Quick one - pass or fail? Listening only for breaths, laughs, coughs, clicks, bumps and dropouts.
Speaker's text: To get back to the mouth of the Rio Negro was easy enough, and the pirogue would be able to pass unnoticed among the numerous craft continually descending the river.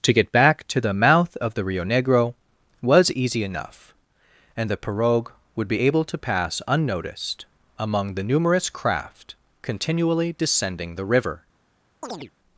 fail